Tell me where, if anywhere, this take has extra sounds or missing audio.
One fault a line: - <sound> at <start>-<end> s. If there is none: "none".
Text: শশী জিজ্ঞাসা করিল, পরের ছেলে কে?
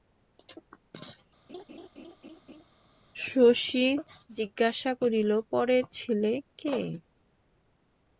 - laugh at 1.5-2.7 s